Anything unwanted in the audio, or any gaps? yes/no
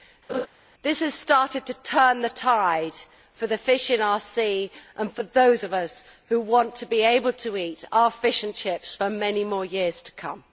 yes